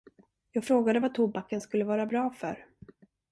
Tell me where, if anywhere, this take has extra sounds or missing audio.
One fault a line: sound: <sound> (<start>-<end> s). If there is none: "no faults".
no faults